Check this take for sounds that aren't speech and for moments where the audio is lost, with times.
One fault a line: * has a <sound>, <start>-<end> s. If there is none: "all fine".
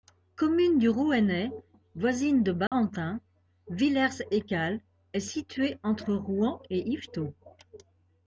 * has a dropout, 2.7-2.7 s